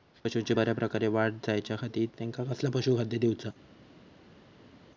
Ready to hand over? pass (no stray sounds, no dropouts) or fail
pass